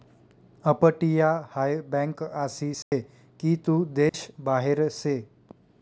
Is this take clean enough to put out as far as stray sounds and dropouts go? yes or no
no